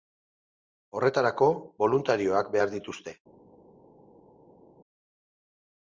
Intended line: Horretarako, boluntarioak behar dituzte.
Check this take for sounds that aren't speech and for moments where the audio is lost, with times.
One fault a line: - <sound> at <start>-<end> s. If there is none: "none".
none